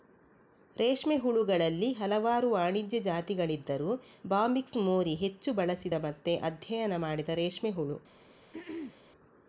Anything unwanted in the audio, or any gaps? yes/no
yes